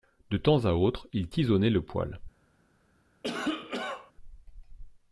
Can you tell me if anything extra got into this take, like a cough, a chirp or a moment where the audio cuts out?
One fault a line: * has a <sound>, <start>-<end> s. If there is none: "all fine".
* has a cough, 3.2-4.1 s